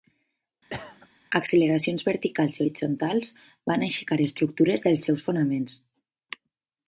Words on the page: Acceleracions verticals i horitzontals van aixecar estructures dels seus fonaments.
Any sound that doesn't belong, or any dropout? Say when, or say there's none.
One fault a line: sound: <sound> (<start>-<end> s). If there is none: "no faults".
sound: cough (0.7-1.1 s)